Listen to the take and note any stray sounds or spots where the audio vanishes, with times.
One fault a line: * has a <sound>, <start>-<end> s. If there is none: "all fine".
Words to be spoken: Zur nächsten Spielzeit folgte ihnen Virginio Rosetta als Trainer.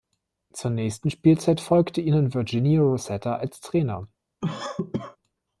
* has a cough, 4.4-5.2 s